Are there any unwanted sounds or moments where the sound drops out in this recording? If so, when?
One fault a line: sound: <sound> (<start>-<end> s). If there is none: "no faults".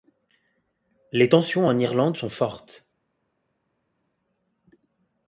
no faults